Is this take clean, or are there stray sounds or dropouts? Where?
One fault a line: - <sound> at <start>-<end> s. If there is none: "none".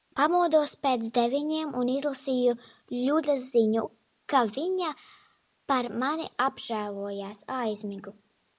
none